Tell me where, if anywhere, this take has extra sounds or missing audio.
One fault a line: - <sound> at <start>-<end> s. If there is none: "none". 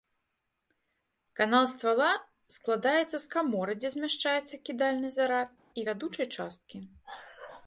none